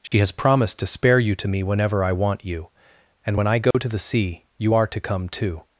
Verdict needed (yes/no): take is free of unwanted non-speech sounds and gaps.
no